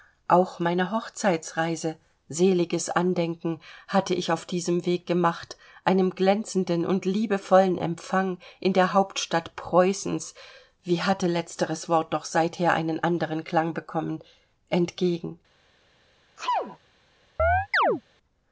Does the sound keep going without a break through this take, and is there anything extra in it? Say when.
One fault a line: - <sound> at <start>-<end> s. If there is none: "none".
- sneeze at 16.4-16.8 s
- chirp at 17.4-18.0 s